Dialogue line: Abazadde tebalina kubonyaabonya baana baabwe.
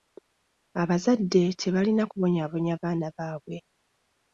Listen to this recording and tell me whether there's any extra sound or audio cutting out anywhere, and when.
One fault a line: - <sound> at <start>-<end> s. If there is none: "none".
none